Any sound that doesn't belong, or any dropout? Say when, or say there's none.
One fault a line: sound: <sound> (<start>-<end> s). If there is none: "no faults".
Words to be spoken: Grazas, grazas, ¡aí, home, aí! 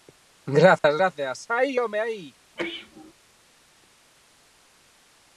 sound: dropout (0.8-0.8 s)
sound: sneeze (2.6-3.1 s)